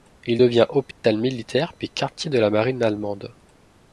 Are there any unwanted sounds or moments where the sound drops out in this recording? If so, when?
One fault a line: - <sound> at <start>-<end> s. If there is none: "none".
- dropout at 0.9-1.0 s